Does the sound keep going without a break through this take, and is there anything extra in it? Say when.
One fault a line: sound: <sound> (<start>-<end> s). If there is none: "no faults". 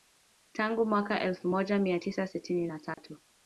sound: dropout (2.9-3.0 s)